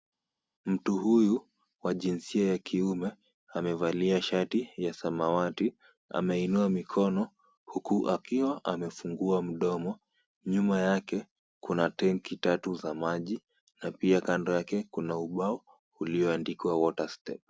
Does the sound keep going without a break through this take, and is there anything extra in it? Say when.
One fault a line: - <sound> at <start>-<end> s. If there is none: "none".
none